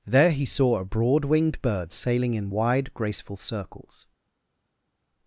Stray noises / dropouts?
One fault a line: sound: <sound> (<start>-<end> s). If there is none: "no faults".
no faults